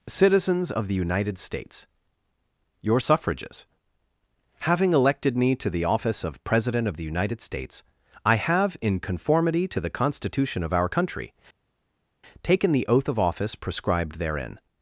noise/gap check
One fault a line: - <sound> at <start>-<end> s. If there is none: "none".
none